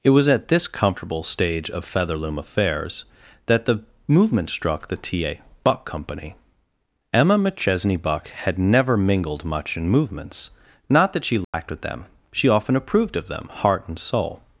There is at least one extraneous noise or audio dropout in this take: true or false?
true